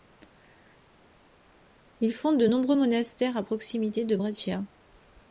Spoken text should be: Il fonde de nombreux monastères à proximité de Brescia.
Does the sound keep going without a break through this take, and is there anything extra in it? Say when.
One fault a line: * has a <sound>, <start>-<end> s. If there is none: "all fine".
all fine